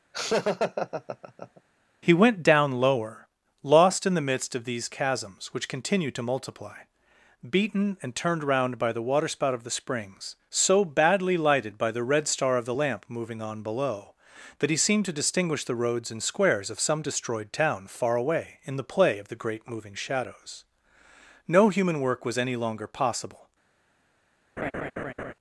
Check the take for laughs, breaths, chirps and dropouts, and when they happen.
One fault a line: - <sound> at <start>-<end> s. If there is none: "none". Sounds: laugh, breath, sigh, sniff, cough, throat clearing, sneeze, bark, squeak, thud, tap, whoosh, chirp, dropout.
- laugh at 0.1-1.6 s
- laugh at 24.6-25.3 s